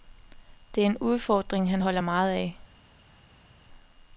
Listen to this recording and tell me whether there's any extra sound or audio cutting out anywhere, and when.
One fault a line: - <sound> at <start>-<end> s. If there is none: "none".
none